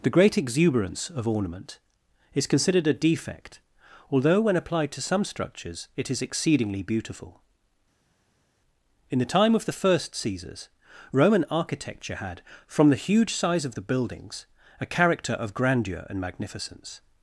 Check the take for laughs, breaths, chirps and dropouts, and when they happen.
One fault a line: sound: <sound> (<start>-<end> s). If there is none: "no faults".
no faults